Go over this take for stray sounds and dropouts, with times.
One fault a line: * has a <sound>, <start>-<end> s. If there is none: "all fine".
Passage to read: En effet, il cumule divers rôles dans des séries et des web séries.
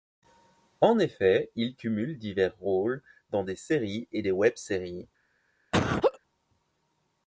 * has a laugh, 5.7-6.2 s